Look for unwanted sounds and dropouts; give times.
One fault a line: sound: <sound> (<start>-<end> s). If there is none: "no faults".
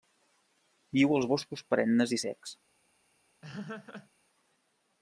sound: laugh (3.4-4.1 s)